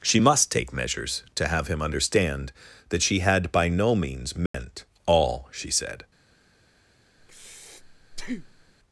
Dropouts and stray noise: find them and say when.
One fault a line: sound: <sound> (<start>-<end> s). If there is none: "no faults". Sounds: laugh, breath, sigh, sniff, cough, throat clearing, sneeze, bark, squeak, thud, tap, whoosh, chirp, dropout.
sound: dropout (4.5-4.5 s)
sound: breath (7.2-8.7 s)